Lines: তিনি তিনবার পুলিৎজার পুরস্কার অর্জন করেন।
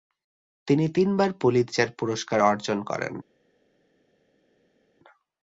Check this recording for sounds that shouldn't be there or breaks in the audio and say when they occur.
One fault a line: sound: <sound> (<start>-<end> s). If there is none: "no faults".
no faults